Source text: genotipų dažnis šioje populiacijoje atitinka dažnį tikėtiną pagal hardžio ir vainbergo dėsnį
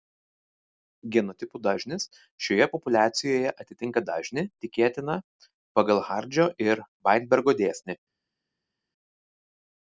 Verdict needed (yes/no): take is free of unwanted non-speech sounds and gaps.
yes